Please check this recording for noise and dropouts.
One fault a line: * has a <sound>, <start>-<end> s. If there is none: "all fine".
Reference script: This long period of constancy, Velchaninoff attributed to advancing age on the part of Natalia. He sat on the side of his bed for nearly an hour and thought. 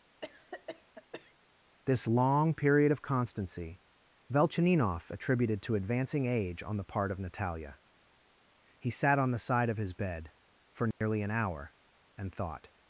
* has a cough, 0.2-1.3 s
* has a dropout, 10.9-11.0 s